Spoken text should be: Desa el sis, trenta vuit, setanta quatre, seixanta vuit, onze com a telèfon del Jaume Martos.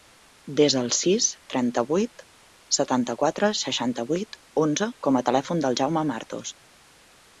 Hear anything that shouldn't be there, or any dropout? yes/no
no